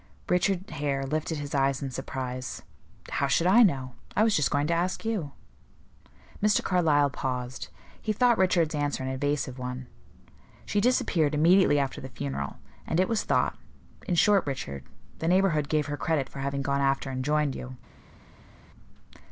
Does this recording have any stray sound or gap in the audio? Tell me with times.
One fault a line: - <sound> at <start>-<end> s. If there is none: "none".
none